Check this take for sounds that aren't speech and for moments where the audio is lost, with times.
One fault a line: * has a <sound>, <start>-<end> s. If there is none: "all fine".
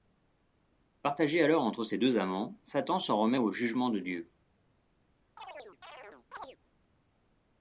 * has a chirp, 5.4-6.6 s